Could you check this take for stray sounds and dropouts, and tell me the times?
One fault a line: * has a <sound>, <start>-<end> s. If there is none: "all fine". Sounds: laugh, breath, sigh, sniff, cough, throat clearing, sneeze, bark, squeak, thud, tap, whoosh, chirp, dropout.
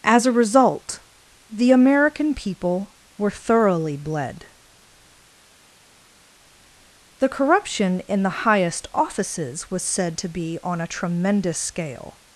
all fine